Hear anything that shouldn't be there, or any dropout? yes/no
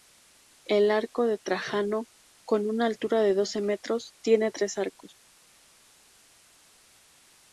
no